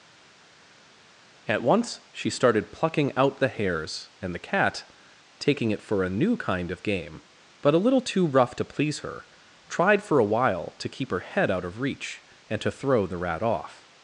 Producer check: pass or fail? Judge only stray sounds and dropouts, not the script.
pass